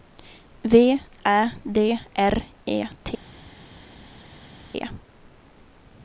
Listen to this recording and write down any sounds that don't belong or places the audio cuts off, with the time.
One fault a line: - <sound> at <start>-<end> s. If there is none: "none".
none